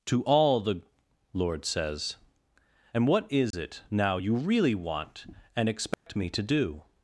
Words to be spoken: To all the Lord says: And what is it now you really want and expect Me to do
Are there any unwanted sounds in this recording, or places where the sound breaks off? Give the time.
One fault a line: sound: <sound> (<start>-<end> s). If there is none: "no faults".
sound: dropout (3.5-3.5 s)
sound: dropout (5.9-6.1 s)